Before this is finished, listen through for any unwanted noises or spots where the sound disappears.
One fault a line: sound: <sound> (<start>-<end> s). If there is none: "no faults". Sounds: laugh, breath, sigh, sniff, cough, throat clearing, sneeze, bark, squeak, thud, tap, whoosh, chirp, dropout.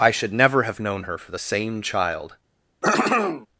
sound: throat clearing (2.8-3.5 s)